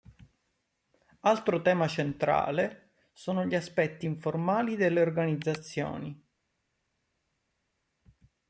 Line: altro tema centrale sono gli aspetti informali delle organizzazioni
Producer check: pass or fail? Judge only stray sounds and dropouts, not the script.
pass